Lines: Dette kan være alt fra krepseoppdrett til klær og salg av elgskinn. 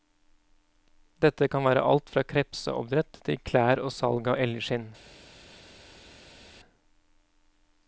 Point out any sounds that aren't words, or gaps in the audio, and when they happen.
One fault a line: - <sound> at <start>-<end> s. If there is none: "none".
none